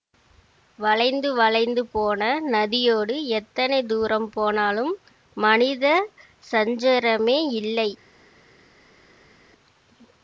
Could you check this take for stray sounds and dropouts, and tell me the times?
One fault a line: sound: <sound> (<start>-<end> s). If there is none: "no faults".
no faults